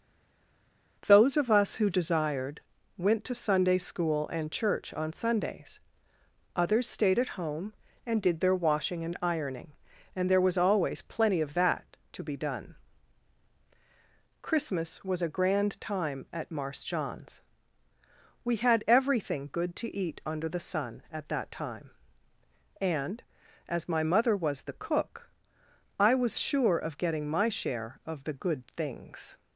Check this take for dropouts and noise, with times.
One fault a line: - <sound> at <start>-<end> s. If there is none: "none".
none